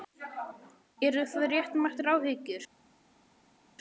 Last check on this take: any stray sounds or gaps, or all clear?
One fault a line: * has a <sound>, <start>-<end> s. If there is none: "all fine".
all fine